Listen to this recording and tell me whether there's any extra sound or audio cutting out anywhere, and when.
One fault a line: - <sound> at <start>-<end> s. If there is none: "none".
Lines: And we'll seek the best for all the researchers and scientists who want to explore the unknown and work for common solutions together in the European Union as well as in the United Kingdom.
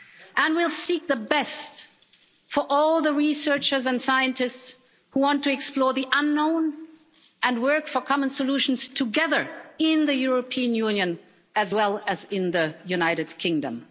none